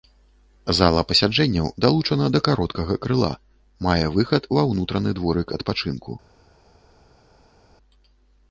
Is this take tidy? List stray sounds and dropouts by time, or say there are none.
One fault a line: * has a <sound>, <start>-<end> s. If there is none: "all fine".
all fine